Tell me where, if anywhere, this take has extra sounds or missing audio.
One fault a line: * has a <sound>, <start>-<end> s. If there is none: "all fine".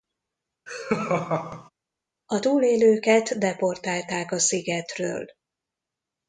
* has a laugh, 0.7-1.7 s